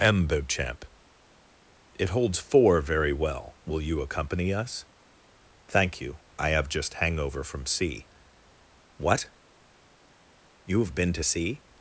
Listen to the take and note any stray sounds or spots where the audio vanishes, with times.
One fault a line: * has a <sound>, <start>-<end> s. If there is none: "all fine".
all fine